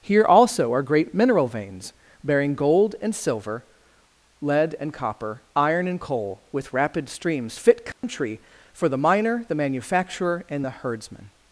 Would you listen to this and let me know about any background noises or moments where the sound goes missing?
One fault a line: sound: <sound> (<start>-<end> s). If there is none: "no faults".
sound: dropout (7.9-8.0 s)